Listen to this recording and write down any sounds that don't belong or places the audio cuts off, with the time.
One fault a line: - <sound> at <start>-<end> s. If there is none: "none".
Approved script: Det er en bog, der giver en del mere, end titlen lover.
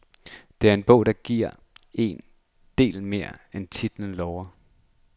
none